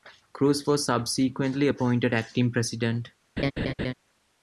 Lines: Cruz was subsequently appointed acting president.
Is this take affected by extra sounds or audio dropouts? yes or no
yes